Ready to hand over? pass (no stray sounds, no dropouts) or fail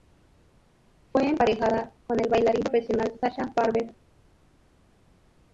pass